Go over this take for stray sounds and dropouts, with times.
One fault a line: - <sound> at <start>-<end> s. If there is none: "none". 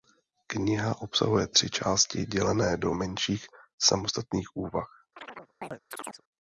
- chirp at 5.2-6.2 s